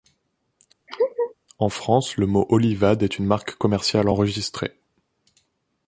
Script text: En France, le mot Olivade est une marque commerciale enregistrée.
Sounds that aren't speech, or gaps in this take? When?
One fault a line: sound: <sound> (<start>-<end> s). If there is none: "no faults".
sound: laugh (0.9-1.3 s)